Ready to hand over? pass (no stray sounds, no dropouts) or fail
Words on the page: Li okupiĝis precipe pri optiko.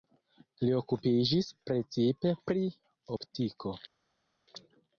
pass